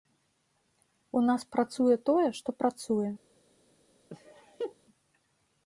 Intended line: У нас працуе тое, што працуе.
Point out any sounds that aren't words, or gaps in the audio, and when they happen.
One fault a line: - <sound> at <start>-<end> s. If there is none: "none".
- laugh at 4.1-4.8 s